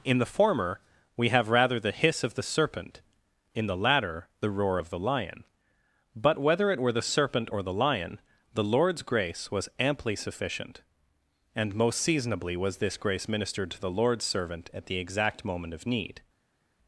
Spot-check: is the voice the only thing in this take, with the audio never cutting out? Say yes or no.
yes